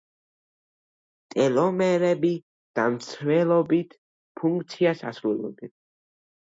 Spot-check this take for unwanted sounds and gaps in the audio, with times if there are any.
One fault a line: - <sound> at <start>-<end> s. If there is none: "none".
none